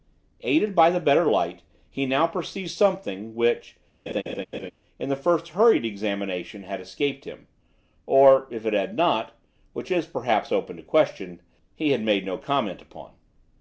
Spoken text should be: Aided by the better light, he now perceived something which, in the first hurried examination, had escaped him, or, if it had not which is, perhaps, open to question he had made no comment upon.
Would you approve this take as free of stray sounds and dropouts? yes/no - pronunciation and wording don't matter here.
no